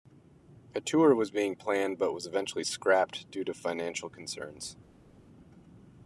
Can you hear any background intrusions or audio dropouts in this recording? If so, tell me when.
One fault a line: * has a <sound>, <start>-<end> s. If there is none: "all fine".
all fine